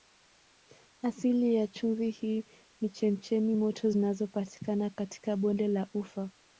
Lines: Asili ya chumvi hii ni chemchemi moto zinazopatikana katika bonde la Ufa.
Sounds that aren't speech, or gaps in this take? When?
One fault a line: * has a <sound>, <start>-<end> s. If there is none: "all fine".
all fine